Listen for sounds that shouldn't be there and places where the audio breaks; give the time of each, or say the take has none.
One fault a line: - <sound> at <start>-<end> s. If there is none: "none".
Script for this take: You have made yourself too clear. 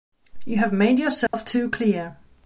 - dropout at 1.3-1.3 s